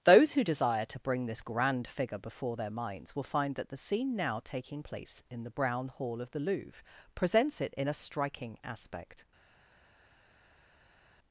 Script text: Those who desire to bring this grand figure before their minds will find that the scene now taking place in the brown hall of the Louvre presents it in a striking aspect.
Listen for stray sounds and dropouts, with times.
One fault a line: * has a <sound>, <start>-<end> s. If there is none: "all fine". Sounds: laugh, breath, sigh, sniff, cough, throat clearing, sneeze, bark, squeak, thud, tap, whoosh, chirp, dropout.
all fine